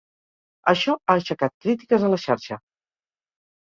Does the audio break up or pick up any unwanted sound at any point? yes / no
no